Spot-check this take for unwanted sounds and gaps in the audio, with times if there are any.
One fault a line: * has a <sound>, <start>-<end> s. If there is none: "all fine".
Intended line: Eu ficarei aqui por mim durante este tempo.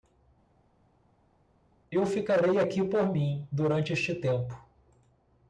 all fine